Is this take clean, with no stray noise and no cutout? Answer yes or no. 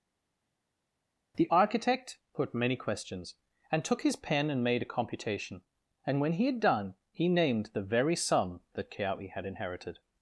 yes